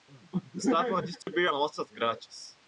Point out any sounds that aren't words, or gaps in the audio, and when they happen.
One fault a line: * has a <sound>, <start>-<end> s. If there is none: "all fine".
* has a dropout, 1.2-1.3 s